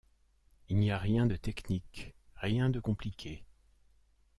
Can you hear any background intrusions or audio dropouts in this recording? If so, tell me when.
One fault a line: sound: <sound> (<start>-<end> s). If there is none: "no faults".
no faults